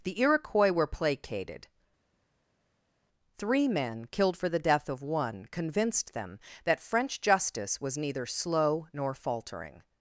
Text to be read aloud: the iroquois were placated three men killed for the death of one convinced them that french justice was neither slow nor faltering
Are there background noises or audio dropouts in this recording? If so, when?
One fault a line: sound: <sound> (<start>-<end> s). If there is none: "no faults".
no faults